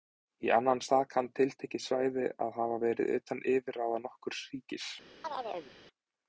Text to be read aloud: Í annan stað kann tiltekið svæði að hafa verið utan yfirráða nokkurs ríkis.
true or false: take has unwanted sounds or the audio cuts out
true